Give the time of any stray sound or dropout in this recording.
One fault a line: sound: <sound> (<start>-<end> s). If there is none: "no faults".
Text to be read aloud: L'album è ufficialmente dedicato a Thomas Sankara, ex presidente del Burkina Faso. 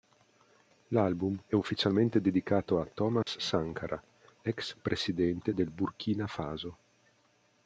sound: dropout (3.2-3.3 s)